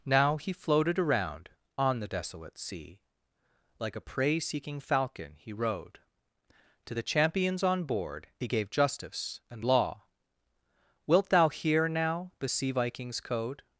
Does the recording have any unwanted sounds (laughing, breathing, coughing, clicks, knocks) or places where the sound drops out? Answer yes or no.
no